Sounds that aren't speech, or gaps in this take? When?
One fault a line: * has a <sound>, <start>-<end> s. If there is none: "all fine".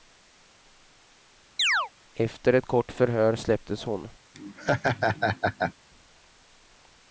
* has a chirp, 1.6-1.9 s
* has a laugh, 4.3-5.7 s